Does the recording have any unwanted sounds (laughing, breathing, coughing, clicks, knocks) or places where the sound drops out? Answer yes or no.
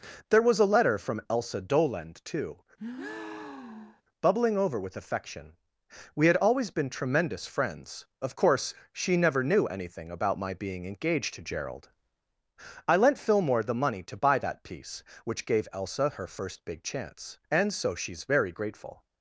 yes